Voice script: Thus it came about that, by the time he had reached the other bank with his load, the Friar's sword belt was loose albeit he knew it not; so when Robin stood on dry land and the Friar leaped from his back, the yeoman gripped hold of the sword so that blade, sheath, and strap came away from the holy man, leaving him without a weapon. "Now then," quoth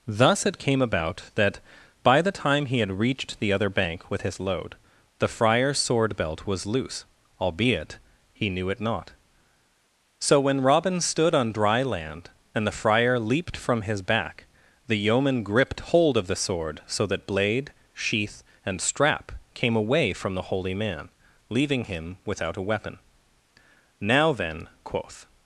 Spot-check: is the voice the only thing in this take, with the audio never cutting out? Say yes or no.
yes